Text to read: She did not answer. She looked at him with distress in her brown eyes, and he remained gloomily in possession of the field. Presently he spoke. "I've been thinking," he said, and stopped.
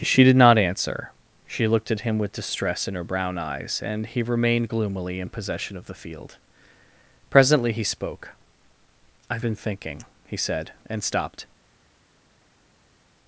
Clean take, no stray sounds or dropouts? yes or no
yes